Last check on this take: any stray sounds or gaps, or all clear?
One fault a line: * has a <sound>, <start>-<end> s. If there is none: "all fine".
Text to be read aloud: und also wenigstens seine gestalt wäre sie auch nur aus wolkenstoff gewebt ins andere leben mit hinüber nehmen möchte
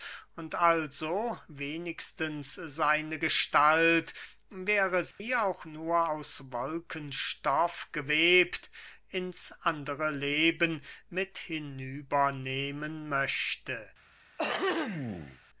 * has a dropout, 5.1-5.2 s
* has a throat clearing, 14.4-15.4 s